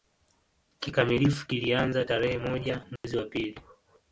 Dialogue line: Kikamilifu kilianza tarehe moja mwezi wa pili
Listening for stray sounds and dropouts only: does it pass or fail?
fail